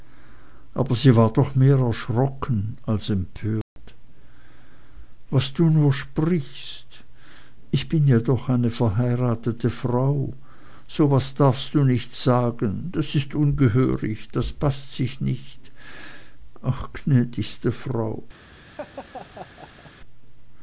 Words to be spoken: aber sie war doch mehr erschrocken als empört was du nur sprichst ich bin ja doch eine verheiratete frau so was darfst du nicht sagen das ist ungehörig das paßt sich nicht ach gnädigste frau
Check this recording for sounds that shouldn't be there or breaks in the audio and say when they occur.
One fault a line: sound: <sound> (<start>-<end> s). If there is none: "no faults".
sound: dropout (3.6-3.8 s)
sound: laugh (18.6-19.9 s)